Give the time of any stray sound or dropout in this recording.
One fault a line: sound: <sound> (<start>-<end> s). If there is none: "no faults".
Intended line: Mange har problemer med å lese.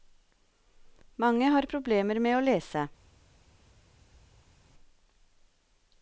no faults